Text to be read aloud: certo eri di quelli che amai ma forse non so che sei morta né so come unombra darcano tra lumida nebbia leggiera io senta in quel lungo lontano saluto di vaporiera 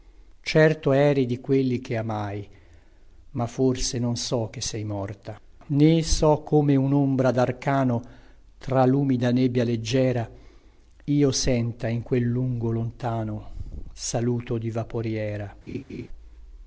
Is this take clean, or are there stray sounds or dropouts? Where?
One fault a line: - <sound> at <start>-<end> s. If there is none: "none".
- laugh at 15.7-16.1 s